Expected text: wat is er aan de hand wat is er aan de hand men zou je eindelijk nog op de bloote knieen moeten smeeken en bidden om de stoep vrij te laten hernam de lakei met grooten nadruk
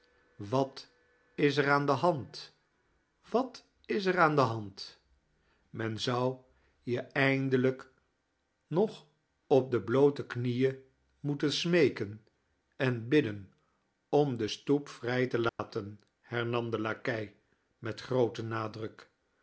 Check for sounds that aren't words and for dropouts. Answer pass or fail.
fail